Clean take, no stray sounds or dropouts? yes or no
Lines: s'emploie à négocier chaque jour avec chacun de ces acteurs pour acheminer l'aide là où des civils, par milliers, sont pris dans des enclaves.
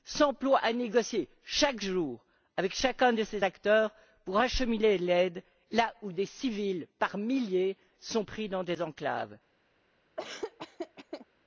no